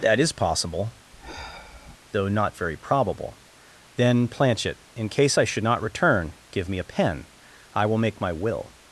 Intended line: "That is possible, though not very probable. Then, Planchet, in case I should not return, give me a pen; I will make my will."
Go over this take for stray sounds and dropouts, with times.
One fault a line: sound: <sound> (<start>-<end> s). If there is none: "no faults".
sound: sigh (1.1-2.0 s)